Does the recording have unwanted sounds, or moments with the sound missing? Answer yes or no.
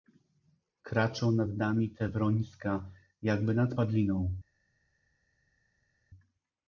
no